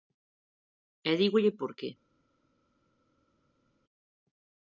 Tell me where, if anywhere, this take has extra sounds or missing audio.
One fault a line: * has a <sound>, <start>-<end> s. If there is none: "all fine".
all fine